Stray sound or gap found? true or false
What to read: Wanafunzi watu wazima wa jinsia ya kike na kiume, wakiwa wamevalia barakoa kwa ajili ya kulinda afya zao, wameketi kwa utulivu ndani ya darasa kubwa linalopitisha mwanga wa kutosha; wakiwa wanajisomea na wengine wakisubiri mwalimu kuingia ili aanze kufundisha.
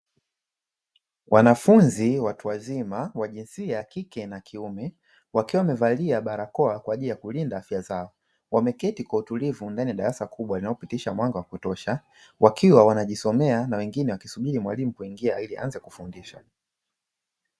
false